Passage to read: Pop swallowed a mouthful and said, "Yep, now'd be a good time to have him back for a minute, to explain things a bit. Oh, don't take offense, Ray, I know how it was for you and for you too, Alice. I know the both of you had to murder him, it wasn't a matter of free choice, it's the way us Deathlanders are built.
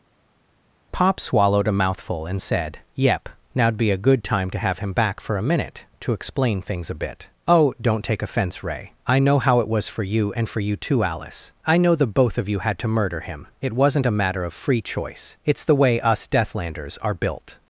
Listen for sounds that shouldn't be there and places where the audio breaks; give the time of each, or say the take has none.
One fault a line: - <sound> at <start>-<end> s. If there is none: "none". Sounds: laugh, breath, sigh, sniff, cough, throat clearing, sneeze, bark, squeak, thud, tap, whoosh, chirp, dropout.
none